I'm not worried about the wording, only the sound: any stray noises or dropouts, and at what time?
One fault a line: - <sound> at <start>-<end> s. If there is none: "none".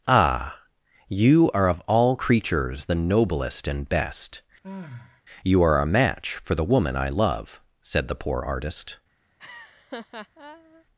- sigh at 4.6-5.2 s
- laugh at 9.4-10.8 s